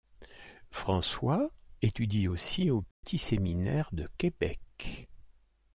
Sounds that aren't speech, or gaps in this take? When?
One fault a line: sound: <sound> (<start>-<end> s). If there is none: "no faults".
sound: dropout (2.9-3.0 s)